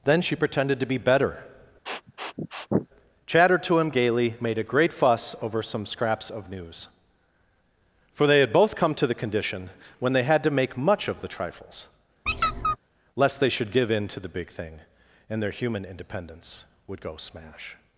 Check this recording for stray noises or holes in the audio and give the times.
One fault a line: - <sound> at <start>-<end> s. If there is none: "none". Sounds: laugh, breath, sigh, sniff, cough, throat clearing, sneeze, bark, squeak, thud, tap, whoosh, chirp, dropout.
- sniff at 1.9-2.9 s
- squeak at 12.3-12.8 s